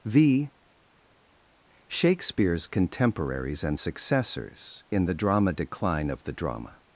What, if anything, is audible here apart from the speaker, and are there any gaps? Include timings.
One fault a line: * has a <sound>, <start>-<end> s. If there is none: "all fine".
all fine